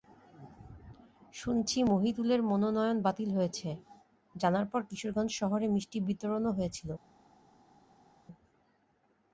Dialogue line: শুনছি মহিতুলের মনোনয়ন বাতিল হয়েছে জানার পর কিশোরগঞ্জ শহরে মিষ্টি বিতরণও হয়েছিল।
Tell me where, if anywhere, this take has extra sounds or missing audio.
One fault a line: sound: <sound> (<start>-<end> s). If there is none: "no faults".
no faults